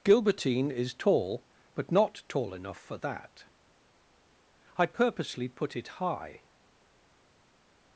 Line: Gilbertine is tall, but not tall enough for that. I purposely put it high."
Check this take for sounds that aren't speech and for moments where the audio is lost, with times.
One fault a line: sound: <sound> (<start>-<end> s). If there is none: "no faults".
no faults